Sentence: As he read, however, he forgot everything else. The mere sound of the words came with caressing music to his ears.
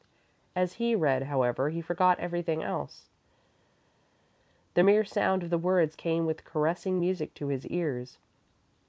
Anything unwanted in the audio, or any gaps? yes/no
no